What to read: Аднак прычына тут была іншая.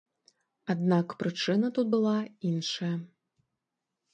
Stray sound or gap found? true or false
false